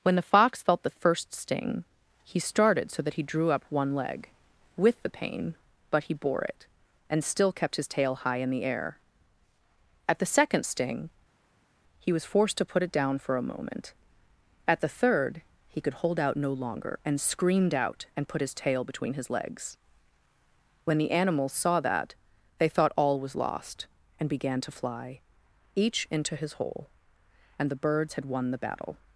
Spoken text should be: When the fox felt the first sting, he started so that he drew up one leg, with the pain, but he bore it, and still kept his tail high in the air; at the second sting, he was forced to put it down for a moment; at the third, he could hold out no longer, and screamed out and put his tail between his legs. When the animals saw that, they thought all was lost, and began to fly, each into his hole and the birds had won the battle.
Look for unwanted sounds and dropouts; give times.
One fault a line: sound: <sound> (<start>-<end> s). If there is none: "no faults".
no faults